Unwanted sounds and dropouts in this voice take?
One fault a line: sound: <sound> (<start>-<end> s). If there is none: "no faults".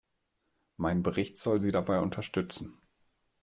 no faults